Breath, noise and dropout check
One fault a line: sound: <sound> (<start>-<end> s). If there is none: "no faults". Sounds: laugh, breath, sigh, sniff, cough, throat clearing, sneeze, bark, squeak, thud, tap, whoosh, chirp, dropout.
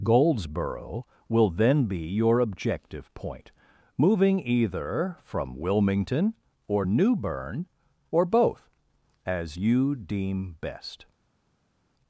no faults